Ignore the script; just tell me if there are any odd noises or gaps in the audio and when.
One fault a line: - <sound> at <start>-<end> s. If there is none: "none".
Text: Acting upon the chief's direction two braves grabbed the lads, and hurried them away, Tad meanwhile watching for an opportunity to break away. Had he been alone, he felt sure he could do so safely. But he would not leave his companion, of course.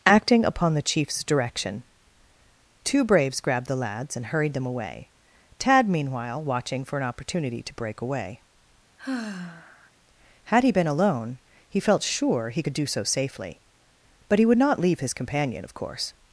- sigh at 9.0-9.9 s